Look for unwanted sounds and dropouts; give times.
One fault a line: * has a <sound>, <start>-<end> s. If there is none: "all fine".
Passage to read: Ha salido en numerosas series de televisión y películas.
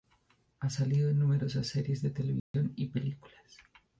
* has a dropout, 2.4-2.5 s